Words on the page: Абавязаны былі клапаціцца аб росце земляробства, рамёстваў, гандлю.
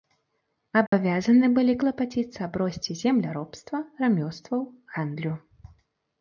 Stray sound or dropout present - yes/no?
yes